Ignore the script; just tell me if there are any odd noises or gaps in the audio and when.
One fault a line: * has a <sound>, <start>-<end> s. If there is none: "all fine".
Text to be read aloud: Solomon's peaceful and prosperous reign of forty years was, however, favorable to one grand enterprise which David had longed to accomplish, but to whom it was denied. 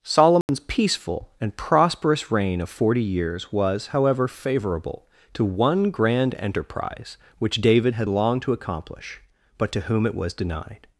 * has a dropout, 0.4-0.5 s